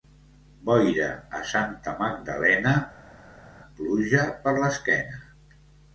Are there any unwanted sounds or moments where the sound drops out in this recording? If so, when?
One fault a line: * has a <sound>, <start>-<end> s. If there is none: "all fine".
all fine